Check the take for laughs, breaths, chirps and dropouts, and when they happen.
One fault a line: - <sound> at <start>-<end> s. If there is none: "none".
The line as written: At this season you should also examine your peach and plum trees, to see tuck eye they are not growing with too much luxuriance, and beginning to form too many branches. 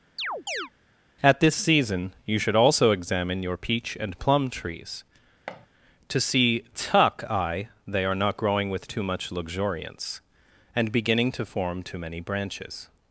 - chirp at 0.2-0.7 s
- thud at 5.5-5.7 s